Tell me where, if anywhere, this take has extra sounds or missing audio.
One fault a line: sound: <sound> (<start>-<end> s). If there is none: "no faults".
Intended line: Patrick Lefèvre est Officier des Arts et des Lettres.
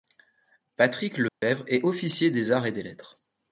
sound: dropout (1.3-1.4 s)